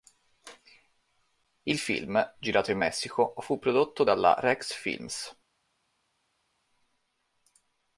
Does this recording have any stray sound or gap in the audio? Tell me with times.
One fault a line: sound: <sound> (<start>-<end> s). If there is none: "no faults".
no faults